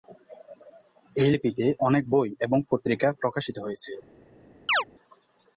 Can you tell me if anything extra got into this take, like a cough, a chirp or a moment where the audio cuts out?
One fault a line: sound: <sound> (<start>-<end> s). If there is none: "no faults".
sound: chirp (4.7-4.8 s)